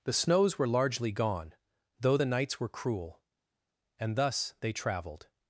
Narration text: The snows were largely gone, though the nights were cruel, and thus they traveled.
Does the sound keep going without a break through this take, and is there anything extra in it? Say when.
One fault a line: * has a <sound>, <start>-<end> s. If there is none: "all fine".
all fine